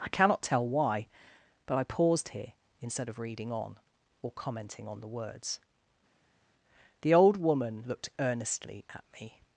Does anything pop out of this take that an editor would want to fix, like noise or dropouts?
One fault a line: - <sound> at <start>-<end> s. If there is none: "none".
none